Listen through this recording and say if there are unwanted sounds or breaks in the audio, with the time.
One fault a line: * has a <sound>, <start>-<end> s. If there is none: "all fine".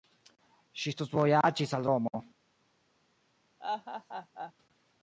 * has a laugh, 3.6-4.5 s